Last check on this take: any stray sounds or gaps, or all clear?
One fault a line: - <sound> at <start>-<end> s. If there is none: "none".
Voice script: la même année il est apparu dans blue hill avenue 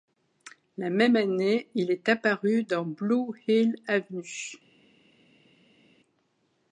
none